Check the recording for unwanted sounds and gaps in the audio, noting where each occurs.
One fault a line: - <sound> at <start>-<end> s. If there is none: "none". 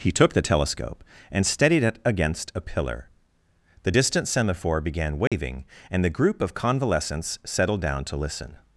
- dropout at 5.3-5.3 s